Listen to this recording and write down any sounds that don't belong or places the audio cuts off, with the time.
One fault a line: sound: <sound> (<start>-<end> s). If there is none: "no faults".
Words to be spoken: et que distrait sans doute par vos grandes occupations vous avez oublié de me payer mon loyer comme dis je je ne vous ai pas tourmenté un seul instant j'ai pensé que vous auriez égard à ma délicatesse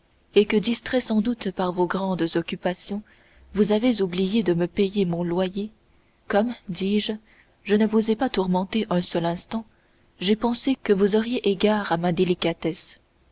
no faults